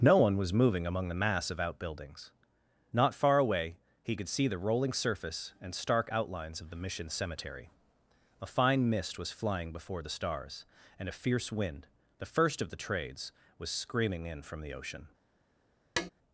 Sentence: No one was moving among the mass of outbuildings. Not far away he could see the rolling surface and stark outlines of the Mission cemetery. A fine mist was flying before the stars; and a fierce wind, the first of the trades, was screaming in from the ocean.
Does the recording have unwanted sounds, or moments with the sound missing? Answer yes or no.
yes